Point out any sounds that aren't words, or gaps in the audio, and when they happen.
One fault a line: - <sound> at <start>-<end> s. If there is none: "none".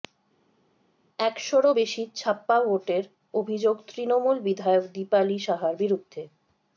none